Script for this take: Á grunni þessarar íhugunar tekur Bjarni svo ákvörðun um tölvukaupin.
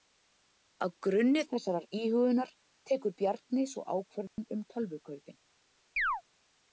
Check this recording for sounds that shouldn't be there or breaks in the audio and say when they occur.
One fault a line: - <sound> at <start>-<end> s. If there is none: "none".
- dropout at 4.3-4.4 s
- chirp at 6.0-6.2 s